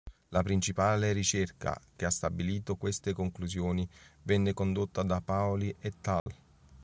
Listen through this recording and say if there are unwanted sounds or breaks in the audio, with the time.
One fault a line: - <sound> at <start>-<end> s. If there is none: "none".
- dropout at 6.2-6.3 s